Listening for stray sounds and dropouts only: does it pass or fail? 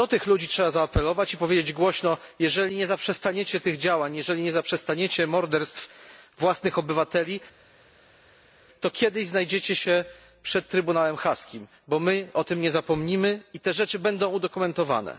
pass